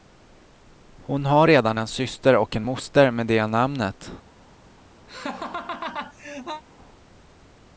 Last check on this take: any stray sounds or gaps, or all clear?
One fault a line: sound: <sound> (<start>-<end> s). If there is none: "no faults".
sound: laugh (5.1-6.6 s)